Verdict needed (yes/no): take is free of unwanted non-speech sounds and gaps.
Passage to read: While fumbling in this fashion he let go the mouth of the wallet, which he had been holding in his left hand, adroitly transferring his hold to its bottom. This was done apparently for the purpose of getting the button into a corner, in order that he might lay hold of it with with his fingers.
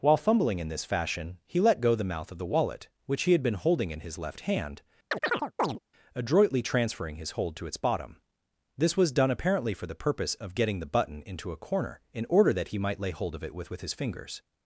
no